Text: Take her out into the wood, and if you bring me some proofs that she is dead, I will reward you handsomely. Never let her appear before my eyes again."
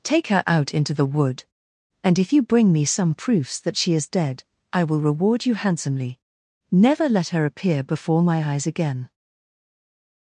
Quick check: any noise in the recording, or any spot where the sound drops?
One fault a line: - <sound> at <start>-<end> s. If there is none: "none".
none